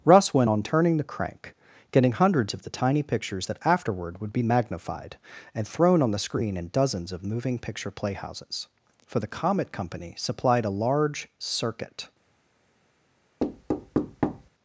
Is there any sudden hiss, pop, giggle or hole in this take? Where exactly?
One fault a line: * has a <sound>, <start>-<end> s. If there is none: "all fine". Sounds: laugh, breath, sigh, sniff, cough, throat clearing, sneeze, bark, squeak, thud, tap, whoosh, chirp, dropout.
* has a thud, 13.4-14.5 s